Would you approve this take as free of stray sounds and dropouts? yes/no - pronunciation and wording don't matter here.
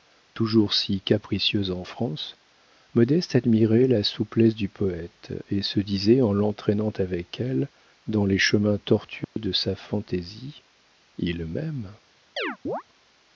no